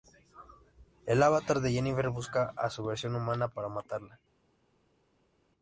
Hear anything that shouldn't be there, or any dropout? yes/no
no